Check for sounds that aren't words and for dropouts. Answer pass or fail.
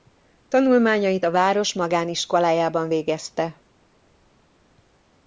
pass